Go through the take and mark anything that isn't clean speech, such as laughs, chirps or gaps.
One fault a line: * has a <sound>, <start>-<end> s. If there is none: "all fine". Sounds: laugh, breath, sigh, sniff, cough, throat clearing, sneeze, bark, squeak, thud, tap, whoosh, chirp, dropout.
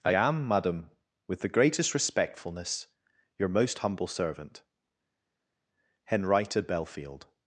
all fine